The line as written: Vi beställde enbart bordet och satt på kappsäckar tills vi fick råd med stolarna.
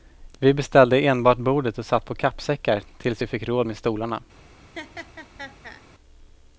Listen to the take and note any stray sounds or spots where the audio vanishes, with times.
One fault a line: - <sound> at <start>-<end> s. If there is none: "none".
- laugh at 4.7-5.8 s